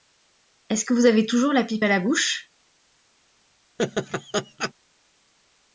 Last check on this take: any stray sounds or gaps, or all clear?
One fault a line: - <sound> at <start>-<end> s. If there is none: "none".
- laugh at 3.8-4.7 s